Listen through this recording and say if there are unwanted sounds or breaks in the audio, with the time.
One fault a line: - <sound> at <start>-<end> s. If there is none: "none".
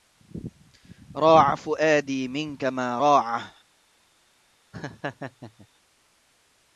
- laugh at 4.7-5.7 s